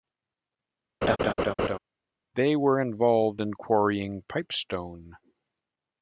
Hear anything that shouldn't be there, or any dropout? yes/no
yes